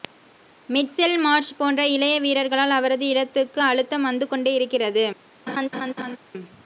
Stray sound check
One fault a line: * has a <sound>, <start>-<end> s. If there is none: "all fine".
* has a laugh, 5.5-6.2 s